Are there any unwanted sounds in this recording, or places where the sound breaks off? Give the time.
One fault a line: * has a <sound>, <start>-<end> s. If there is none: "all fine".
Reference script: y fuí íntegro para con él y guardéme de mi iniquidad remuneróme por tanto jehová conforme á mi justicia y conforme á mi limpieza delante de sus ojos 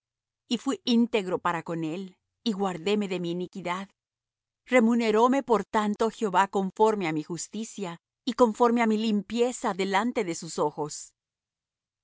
all fine